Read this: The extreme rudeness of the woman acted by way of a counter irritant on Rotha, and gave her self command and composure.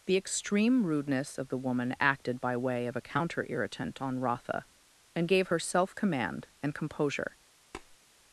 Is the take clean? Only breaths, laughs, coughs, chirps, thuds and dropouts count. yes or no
no